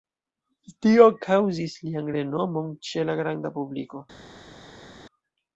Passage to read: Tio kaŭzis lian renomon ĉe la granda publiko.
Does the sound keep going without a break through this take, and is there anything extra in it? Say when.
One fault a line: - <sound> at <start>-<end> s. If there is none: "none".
none